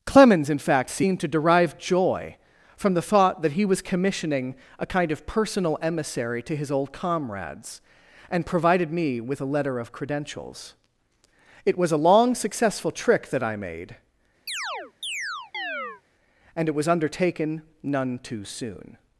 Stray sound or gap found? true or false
true